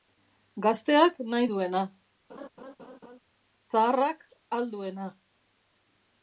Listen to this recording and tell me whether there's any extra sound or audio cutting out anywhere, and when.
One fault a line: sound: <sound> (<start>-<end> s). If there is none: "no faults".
sound: laugh (2.3-3.2 s)